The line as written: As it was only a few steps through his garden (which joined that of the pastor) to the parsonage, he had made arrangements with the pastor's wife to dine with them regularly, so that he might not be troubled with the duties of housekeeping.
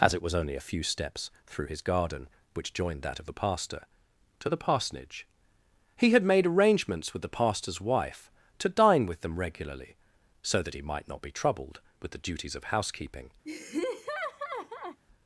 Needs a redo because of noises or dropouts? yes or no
yes